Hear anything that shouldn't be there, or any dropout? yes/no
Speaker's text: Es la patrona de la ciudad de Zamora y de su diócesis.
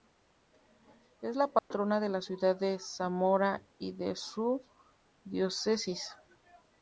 yes